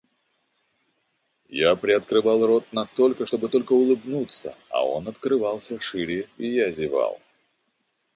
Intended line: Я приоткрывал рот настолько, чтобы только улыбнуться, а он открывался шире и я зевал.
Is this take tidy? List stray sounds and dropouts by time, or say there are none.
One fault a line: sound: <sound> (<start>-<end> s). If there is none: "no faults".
no faults